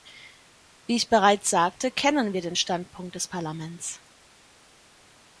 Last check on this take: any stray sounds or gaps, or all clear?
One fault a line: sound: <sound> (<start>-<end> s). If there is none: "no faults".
no faults